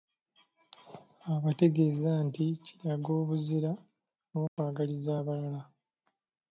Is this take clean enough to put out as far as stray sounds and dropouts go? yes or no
no